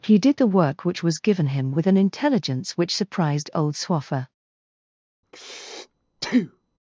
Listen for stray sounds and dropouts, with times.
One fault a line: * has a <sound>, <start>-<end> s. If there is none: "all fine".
* has a breath, 5.2-6.8 s